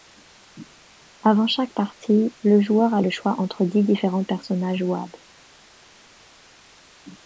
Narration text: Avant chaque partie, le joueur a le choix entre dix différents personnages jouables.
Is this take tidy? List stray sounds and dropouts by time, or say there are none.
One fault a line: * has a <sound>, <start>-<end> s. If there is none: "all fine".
all fine